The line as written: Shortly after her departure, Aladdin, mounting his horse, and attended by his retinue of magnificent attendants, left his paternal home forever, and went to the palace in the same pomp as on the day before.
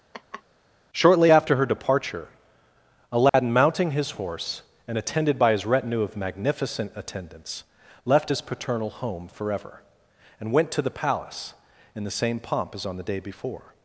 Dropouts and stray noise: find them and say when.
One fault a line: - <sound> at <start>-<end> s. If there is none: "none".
- laugh at 0.1-0.4 s
- dropout at 3.3-3.3 s